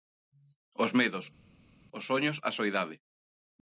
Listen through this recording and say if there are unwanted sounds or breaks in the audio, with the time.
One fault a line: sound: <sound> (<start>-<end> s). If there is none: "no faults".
no faults